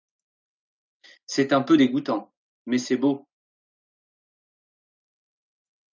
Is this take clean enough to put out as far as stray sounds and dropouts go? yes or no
yes